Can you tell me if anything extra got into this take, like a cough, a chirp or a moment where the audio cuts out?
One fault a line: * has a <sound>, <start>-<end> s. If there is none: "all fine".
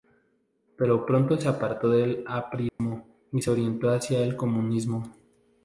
* has a dropout, 2.7-2.8 s